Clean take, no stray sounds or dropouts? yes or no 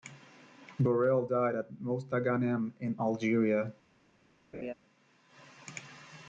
no